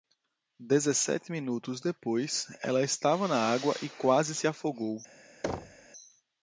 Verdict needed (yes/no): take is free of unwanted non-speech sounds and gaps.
no